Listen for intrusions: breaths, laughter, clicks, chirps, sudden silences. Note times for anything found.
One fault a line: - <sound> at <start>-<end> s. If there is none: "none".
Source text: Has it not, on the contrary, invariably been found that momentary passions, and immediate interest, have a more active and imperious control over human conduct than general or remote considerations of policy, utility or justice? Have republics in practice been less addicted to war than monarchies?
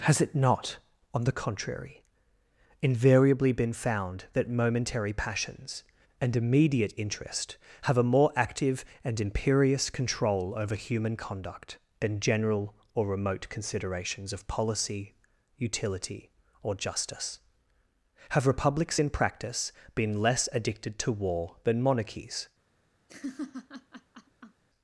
- laugh at 23.1-24.6 s